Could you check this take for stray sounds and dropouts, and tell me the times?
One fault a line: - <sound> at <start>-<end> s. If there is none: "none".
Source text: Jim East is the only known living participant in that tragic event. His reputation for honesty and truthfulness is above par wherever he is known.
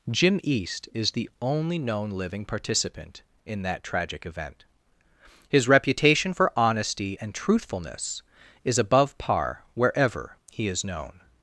none